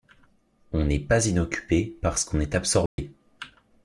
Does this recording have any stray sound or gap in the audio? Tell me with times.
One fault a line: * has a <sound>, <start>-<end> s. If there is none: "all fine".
* has a dropout, 2.9-3.0 s